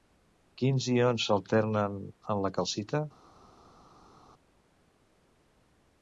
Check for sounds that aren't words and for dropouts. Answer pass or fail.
pass